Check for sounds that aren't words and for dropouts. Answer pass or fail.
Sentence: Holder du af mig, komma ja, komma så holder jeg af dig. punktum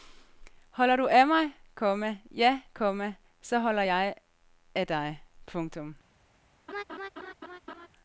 fail